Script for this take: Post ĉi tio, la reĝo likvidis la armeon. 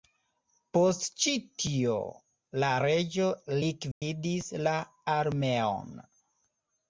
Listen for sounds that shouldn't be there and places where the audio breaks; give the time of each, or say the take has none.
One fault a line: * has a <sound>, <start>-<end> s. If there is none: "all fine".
* has a dropout, 3.9-4.0 s